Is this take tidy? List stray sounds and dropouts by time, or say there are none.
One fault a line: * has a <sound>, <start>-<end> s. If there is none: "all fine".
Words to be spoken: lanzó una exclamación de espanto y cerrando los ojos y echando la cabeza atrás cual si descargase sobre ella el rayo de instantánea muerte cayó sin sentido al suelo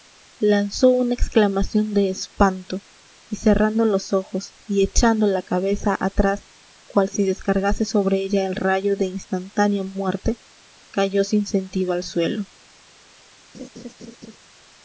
* has a laugh, 13.5-14.4 s